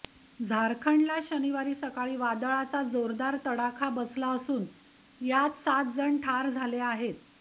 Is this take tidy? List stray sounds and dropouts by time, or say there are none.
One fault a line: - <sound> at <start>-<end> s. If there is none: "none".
none